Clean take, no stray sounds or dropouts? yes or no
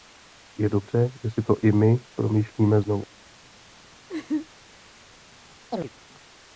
no